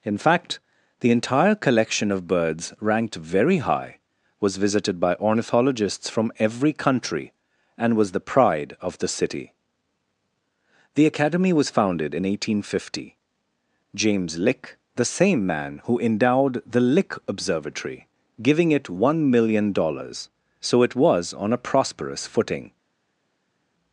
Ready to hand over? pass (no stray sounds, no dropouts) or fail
pass